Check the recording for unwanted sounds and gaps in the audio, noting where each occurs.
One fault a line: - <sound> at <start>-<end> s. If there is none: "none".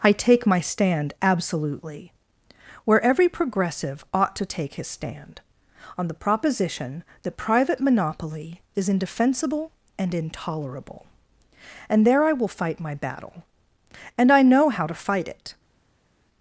none